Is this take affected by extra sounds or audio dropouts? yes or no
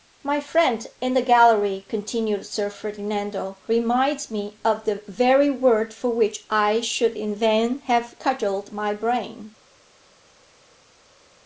no